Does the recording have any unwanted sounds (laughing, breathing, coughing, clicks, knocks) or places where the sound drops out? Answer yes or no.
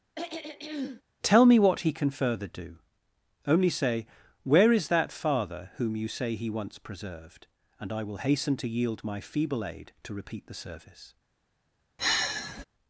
yes